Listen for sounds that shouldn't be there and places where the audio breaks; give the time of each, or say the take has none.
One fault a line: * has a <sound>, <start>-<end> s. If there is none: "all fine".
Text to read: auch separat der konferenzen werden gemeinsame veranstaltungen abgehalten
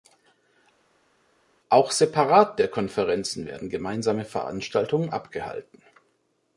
all fine